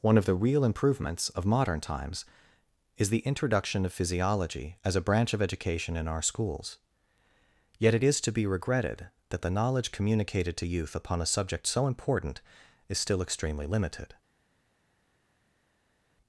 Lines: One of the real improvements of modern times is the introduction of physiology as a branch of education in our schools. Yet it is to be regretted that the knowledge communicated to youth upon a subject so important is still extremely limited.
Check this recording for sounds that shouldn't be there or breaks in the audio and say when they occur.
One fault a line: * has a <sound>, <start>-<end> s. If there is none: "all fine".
all fine